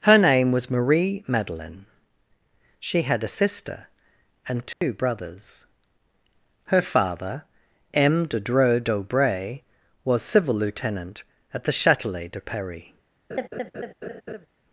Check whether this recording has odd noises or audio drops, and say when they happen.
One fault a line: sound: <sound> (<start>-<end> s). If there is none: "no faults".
sound: dropout (4.7-4.8 s)
sound: laugh (13.3-14.5 s)